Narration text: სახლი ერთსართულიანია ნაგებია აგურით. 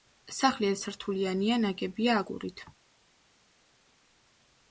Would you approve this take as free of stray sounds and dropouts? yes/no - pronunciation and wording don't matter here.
yes